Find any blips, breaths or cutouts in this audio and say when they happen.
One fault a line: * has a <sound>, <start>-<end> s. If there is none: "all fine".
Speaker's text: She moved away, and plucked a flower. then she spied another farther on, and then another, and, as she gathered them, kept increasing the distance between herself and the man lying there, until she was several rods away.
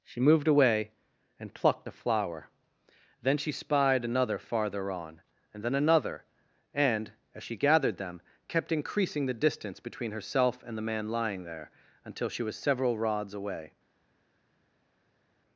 all fine